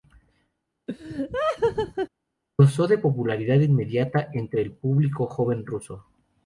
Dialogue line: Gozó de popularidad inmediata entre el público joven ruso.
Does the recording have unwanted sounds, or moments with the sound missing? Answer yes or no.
yes